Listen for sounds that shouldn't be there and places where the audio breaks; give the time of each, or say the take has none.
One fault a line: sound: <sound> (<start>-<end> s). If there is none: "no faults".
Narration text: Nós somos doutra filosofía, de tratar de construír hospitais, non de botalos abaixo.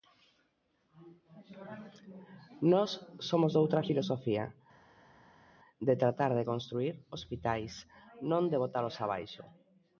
no faults